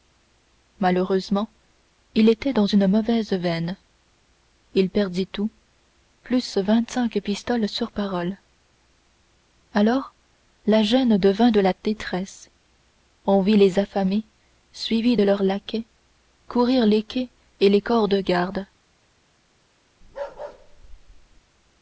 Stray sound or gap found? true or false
true